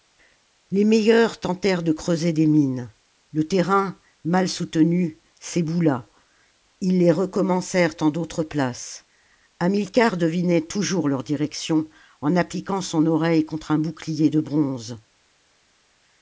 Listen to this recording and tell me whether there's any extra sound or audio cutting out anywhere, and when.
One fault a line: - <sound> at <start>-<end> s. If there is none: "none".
none